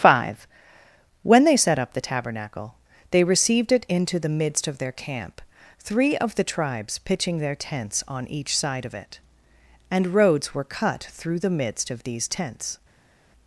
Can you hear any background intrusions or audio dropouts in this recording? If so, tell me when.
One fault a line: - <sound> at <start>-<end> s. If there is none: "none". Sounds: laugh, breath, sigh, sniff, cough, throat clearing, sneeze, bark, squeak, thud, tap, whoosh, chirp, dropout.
none